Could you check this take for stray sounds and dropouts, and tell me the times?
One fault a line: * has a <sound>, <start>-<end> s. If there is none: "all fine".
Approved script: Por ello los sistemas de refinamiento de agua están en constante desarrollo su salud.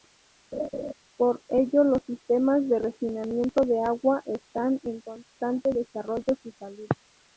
* has a laugh, 0.5-0.9 s